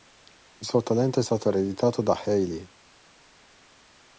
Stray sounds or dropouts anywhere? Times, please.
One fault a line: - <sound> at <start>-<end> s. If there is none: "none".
none